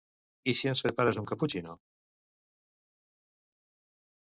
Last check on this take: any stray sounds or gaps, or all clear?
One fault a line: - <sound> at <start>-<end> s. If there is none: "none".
none